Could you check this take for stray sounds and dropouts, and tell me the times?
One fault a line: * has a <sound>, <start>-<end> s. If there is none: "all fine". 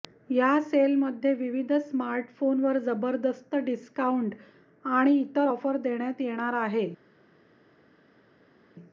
all fine